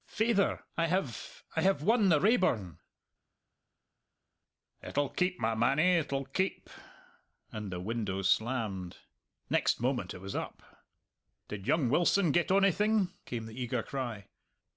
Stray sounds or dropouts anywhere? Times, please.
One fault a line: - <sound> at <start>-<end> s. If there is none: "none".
none